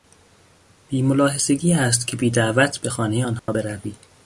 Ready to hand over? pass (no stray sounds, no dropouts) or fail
fail